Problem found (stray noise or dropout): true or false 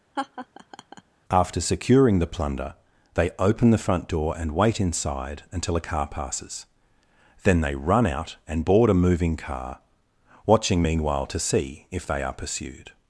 true